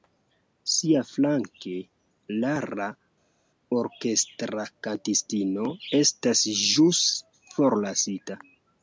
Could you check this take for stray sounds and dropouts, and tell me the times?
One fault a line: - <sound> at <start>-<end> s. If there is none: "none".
none